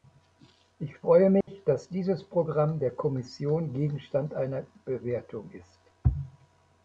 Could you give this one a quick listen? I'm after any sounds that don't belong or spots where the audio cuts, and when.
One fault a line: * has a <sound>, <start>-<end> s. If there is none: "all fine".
* has a dropout, 1.4-1.5 s